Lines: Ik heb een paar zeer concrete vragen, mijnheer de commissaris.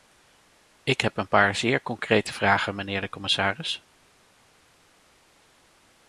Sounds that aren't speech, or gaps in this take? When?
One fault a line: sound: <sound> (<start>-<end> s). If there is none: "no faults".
no faults